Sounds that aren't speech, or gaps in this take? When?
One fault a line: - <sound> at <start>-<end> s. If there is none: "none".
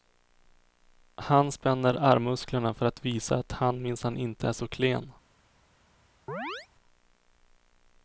- chirp at 6.3-6.7 s